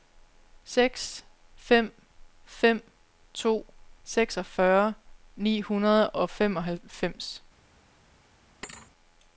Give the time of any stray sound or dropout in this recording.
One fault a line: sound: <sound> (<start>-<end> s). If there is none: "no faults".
sound: thud (8.6-8.9 s)